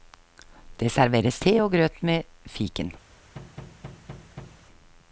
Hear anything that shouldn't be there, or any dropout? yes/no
yes